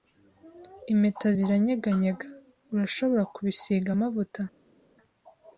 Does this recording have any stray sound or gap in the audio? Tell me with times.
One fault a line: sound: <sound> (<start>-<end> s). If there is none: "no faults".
no faults